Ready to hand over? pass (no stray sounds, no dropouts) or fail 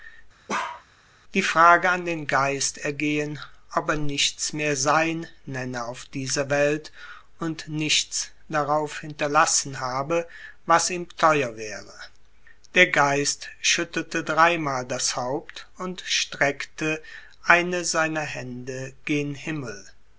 fail